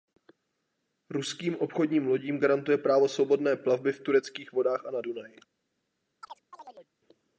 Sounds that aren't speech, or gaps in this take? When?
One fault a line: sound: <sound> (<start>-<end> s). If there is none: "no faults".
sound: chirp (6.2-6.9 s)